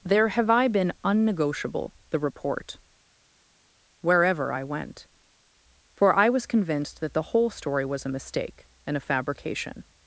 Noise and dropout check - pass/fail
pass